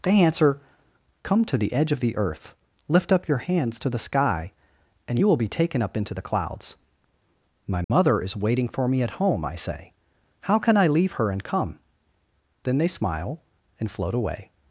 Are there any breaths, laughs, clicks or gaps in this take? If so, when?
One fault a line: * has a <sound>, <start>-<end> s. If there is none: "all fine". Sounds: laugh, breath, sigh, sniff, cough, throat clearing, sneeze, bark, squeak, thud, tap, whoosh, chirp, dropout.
* has a dropout, 7.8-7.9 s